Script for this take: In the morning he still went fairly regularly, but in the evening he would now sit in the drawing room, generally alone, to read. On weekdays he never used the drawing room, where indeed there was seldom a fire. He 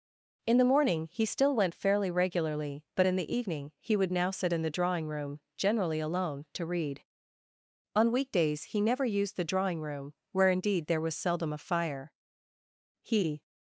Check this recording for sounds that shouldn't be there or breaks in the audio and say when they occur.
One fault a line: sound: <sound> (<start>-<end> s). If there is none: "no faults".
no faults